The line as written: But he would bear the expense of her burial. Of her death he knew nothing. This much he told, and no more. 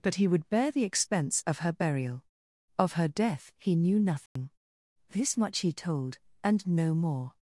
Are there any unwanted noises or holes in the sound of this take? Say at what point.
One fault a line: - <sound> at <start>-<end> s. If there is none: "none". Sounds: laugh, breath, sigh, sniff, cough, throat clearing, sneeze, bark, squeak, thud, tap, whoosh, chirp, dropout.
- dropout at 4.3-4.4 s